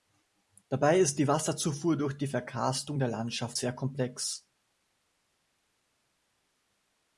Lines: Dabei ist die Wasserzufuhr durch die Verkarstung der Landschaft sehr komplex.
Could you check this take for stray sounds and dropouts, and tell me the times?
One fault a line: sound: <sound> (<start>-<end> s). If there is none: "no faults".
no faults